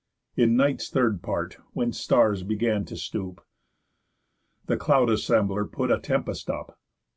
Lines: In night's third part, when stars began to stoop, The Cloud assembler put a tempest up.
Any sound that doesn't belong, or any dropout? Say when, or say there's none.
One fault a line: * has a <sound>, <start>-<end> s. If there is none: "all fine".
all fine